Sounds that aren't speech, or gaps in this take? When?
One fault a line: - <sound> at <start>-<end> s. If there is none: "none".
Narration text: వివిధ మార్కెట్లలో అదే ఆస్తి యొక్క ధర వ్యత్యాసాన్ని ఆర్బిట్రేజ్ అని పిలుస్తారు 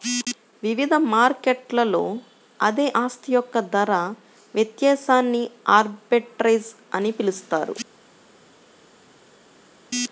none